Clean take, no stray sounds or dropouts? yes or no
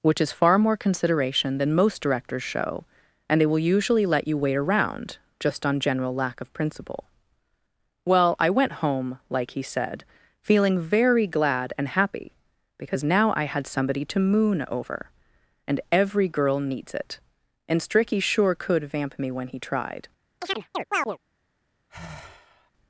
no